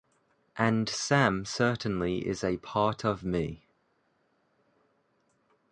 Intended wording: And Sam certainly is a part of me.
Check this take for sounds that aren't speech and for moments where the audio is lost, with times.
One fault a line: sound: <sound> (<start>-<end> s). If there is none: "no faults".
no faults